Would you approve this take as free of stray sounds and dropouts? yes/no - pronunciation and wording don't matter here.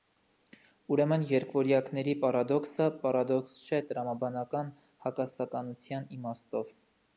yes